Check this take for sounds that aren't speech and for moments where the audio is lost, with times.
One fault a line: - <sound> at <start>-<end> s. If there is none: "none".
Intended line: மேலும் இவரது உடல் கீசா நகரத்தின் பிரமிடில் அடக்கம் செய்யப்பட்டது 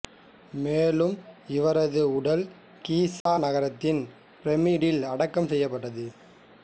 - dropout at 3.2-3.3 s